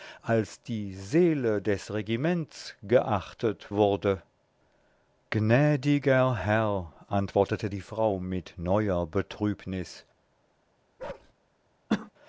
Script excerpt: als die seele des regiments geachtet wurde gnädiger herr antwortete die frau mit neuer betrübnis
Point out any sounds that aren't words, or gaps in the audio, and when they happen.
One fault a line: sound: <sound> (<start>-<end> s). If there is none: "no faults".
sound: bark (11.0-11.3 s)
sound: cough (11.9-12.1 s)